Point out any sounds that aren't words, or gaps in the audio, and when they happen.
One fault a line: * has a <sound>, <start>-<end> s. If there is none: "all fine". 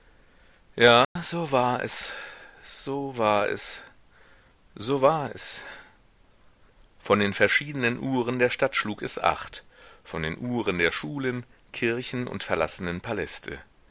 * has a dropout, 1.0-1.2 s